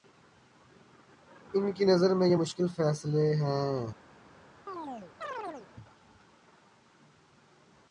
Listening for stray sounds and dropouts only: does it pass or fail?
fail